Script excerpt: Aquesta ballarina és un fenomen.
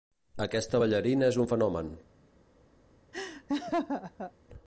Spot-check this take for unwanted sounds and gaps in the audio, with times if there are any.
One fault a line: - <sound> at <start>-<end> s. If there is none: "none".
- laugh at 3.1-4.3 s